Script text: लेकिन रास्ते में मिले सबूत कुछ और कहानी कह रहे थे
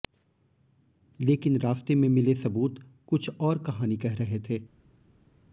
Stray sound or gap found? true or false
false